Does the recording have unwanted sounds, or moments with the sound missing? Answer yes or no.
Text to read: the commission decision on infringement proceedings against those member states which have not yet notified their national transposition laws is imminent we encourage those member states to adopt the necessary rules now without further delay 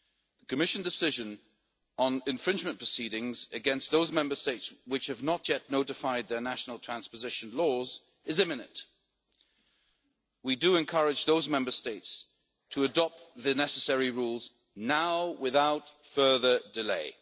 no